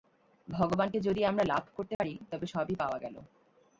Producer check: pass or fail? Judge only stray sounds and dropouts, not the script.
fail